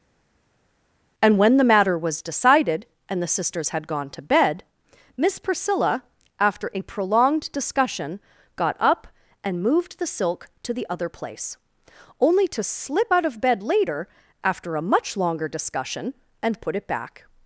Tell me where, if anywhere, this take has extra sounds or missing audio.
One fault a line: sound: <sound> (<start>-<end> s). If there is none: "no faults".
no faults